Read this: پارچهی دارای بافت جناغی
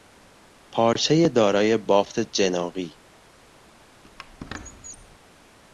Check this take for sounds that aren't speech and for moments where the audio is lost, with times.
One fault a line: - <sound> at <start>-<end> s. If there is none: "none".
- squeak at 4.0-5.2 s